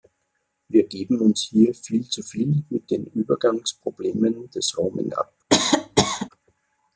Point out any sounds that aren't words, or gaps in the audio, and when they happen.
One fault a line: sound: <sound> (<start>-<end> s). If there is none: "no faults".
sound: cough (5.5-6.3 s)